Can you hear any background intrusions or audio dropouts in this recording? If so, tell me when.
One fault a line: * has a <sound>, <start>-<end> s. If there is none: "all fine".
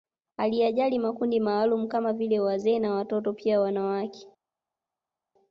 all fine